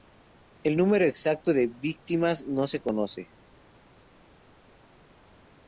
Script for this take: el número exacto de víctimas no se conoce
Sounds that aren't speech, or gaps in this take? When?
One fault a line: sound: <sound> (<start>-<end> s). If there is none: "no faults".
no faults